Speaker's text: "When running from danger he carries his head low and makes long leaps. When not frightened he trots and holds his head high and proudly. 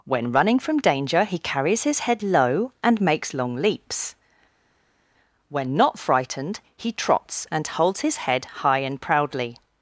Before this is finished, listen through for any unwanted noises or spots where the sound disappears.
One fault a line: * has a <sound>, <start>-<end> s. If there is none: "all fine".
all fine